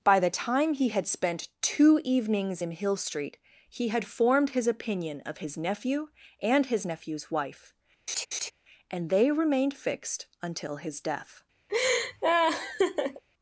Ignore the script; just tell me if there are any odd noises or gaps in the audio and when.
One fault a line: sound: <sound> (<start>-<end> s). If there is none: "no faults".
sound: laugh (8.1-8.5 s)
sound: laugh (11.7-13.2 s)